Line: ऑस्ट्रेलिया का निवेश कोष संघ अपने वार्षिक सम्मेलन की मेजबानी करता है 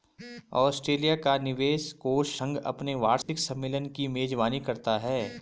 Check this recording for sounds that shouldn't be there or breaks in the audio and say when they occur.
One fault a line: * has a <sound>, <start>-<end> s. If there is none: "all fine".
* has a dropout, 3.2-3.3 s